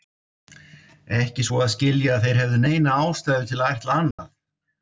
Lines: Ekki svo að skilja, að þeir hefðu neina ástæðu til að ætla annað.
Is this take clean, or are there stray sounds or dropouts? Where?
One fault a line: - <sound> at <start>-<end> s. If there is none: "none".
- dropout at 4.1-4.2 s